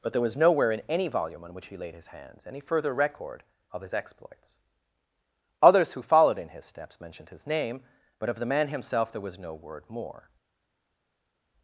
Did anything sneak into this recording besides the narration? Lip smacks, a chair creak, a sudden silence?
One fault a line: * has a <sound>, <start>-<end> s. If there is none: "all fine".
all fine